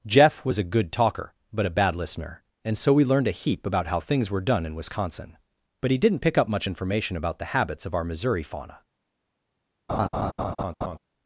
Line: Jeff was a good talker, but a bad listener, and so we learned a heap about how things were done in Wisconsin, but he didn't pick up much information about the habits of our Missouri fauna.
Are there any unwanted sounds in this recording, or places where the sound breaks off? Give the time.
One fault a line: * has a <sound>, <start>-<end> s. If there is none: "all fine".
* has a laugh, 9.9-11.0 s